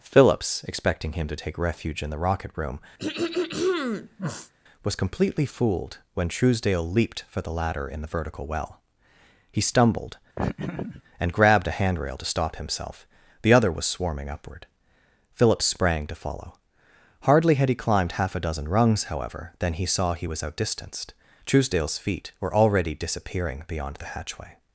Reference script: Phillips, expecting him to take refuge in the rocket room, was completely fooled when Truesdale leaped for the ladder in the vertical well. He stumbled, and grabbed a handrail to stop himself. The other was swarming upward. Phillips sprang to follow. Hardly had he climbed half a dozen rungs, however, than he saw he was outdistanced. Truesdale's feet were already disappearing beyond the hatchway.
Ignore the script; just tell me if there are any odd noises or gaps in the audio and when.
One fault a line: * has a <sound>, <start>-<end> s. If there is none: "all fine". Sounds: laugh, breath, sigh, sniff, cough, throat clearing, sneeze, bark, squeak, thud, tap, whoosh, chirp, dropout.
* has a throat clearing, 3.0-4.5 s
* has a laugh, 10.4-11.0 s